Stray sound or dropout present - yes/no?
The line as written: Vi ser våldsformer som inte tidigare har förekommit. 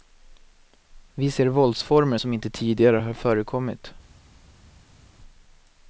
no